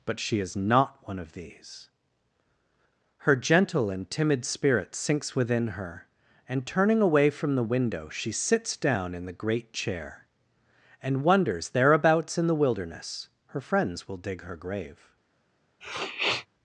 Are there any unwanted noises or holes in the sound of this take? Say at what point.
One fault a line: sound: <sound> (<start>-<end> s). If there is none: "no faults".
sound: sniff (15.8-16.5 s)